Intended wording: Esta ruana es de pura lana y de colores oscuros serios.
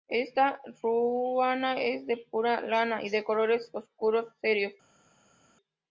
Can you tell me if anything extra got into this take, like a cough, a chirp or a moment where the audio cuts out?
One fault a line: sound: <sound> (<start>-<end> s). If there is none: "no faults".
no faults